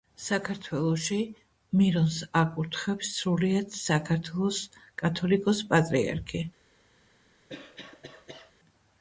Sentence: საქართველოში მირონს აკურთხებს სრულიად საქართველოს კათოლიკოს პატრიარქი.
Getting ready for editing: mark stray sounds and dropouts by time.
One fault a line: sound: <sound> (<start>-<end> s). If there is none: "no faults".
sound: cough (7.5-8.5 s)